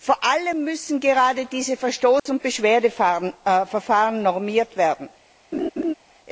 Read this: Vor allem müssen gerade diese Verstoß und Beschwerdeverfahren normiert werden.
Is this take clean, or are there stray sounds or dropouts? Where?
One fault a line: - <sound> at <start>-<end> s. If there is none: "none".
- dropout at 2.2-2.3 s
- laugh at 5.5-5.9 s